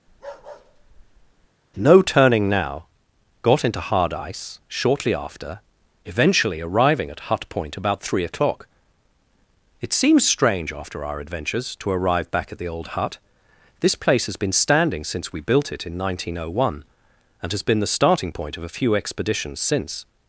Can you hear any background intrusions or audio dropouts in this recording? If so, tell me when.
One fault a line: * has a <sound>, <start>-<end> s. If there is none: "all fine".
* has a bark, 0.1-1.5 s